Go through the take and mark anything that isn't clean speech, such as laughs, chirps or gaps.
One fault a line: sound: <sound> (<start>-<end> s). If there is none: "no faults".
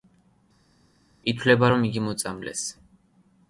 no faults